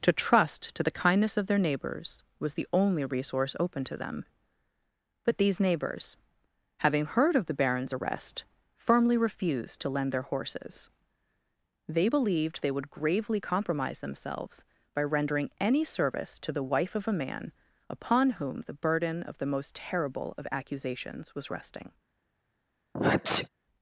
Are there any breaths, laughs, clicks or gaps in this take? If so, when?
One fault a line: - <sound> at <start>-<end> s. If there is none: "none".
- sneeze at 22.9-23.5 s